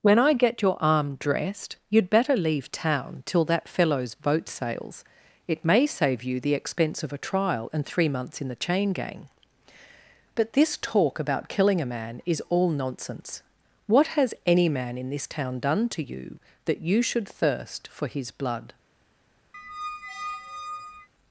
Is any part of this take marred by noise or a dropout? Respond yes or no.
yes